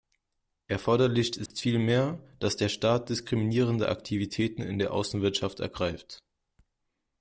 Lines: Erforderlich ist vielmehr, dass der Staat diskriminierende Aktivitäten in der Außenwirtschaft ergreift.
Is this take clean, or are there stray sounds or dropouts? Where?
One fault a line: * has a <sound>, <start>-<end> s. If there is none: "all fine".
* has a dropout, 1.5-1.5 s